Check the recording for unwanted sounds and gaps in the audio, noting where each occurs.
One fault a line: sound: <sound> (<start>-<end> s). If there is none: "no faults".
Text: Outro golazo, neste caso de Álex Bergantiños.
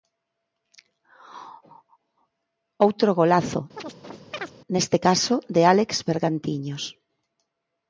sound: chirp (3.8-4.5 s)